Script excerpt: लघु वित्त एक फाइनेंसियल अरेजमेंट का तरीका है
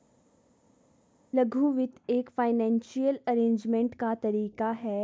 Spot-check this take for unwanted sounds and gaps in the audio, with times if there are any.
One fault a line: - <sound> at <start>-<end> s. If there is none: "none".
none